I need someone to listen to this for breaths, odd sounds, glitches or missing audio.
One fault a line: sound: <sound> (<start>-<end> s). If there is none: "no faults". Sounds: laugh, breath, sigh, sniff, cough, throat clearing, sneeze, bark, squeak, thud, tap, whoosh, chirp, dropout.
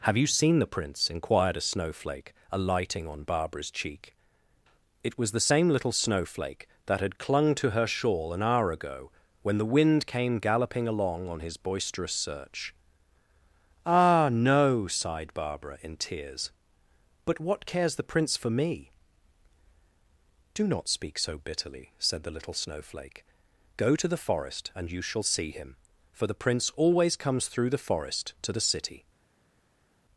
no faults